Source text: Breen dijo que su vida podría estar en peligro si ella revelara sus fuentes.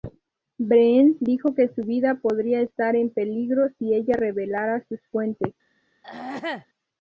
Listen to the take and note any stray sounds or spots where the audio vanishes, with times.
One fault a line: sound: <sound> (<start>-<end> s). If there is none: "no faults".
sound: throat clearing (6.0-6.7 s)